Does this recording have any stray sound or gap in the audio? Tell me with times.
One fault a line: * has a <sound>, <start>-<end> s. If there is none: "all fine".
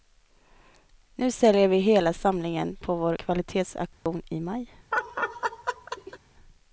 * has a dropout, 3.9-4.1 s
* has a laugh, 4.9-6.2 s